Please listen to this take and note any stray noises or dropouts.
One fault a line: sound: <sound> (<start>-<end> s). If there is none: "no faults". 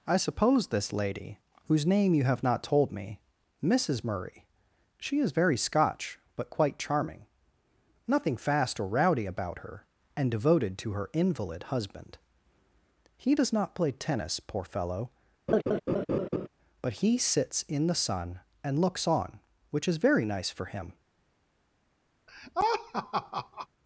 sound: laugh (15.5-16.5 s)
sound: laugh (22.3-23.7 s)